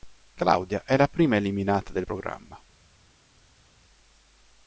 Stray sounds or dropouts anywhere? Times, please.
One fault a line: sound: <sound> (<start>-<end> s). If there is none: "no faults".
no faults